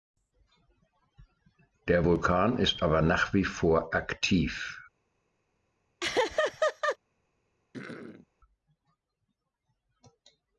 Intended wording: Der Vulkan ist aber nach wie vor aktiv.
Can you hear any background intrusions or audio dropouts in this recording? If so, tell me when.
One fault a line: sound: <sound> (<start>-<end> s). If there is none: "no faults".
sound: laugh (6.0-7.0 s)
sound: throat clearing (7.7-8.3 s)